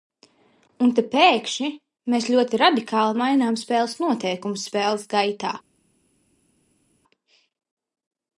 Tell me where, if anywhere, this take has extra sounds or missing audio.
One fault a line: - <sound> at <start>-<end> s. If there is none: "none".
none